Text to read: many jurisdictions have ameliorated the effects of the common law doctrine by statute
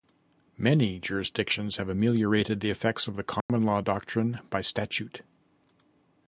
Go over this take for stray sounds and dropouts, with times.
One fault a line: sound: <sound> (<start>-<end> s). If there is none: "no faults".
sound: dropout (3.4-3.5 s)